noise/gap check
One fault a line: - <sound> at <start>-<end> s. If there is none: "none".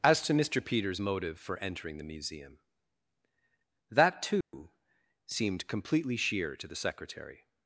- dropout at 4.4-4.5 s